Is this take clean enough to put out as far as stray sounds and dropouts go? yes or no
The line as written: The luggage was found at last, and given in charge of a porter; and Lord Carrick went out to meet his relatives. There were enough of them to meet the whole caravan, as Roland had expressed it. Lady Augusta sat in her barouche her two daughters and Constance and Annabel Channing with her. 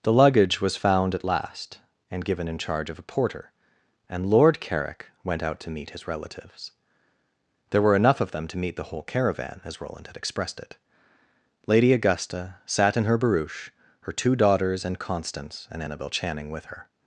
yes